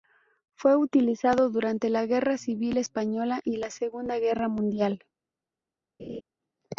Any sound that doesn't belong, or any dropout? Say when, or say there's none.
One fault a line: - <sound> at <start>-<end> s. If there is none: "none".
- laugh at 6.0-6.2 s